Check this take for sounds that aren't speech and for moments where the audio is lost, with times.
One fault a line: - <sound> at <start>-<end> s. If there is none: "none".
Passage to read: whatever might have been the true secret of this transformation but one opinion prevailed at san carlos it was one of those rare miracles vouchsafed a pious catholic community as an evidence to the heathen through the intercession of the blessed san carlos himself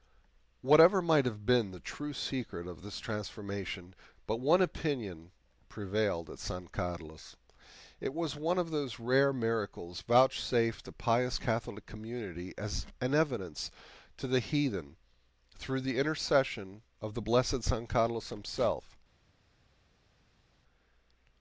none